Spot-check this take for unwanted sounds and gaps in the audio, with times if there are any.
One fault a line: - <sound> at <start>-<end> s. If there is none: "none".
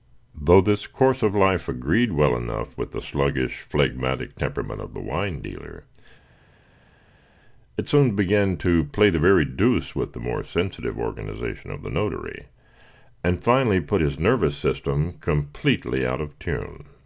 none